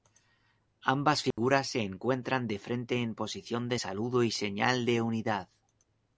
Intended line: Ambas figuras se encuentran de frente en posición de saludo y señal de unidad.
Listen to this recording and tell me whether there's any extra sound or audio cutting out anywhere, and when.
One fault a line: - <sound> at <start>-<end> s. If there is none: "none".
- dropout at 1.3-1.4 s